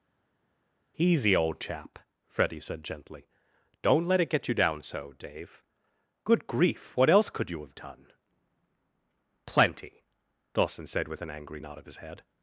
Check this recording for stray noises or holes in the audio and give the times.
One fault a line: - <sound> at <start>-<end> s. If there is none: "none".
none